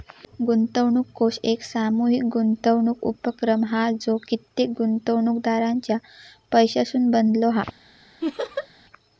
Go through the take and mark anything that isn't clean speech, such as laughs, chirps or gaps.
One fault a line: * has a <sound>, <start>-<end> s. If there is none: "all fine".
* has a laugh, 8.2-8.7 s